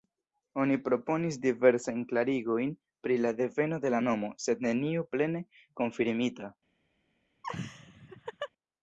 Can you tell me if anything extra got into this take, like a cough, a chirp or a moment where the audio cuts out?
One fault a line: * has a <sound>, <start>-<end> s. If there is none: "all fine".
* has a laugh, 7.4-8.5 s